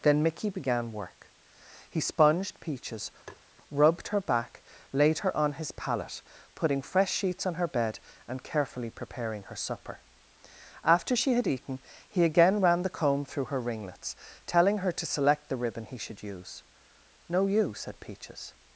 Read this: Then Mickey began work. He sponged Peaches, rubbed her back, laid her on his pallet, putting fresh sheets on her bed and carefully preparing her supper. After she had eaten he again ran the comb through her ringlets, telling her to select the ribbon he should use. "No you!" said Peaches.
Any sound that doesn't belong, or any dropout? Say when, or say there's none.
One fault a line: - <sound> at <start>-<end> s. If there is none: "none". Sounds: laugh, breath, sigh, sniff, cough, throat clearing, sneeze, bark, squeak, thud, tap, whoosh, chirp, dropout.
- tap at 3.3-3.4 s